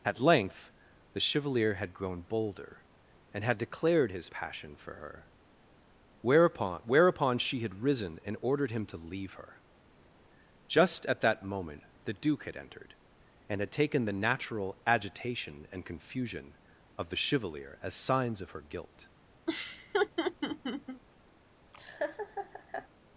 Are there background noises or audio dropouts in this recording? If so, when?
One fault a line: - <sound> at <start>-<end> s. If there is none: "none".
- laugh at 19.5-21.0 s
- laugh at 21.7-22.9 s